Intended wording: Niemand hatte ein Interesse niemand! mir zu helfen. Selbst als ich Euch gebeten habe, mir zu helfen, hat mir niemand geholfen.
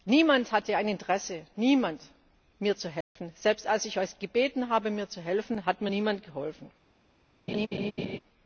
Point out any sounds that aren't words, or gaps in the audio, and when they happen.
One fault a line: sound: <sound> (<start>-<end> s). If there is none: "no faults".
sound: dropout (3.0-3.2 s)
sound: laugh (7.5-8.2 s)